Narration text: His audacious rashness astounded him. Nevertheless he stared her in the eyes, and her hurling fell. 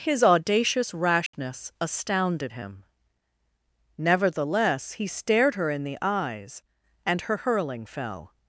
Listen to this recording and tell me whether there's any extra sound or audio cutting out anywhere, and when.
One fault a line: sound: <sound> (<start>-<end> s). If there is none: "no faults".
sound: dropout (1.3-1.3 s)